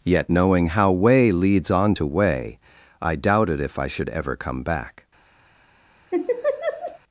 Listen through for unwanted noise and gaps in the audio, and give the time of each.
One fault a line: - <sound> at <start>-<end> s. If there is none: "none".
- laugh at 6.1-7.0 s